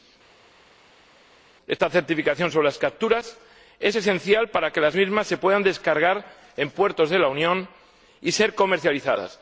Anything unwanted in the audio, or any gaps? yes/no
no